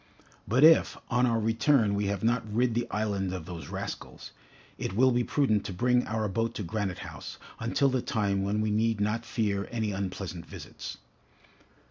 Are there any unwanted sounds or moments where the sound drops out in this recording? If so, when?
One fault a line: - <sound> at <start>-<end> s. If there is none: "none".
none